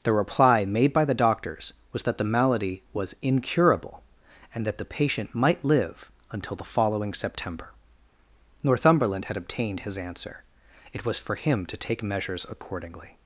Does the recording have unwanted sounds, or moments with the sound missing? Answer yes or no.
no